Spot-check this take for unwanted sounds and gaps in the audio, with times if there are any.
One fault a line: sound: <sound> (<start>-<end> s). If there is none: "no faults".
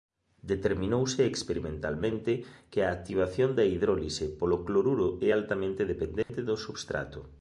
sound: dropout (6.2-6.3 s)